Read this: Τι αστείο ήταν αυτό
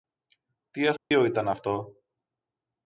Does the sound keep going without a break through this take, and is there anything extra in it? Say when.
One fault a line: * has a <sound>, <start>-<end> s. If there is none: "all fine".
* has a dropout, 1.0-1.1 s